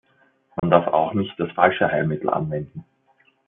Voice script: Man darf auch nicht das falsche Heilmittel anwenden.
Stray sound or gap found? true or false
true